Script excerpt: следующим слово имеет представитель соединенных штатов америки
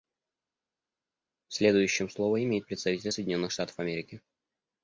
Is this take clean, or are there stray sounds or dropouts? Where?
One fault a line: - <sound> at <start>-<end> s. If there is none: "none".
none